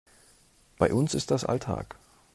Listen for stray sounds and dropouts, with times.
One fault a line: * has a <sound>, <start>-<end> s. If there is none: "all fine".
all fine